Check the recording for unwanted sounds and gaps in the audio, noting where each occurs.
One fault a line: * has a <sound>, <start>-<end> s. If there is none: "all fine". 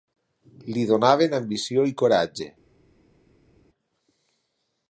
all fine